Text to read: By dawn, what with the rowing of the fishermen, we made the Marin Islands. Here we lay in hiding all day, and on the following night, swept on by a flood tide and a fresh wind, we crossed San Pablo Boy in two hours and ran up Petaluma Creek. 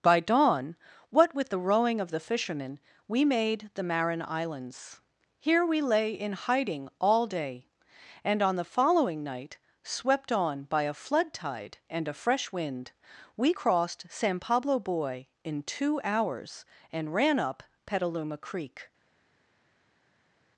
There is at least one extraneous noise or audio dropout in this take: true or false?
false